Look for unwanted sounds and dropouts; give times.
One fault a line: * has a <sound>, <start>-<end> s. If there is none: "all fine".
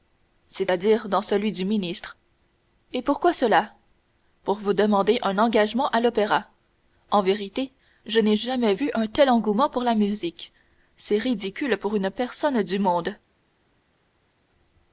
all fine